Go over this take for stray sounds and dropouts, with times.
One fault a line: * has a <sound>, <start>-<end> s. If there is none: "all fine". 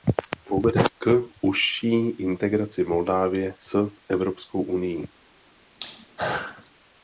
* has a throat clearing, 5.7-6.7 s